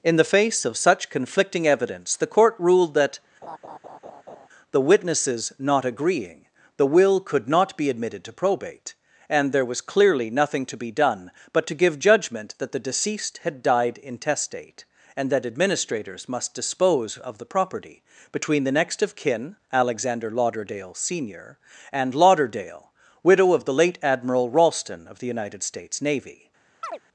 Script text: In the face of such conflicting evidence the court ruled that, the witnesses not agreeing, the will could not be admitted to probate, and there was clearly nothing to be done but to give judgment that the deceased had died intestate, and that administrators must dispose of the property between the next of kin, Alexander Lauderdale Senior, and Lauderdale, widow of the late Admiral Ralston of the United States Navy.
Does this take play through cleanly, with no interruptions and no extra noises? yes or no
no